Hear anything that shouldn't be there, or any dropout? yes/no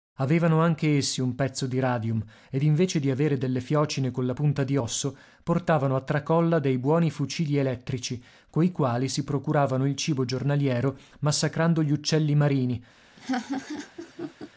yes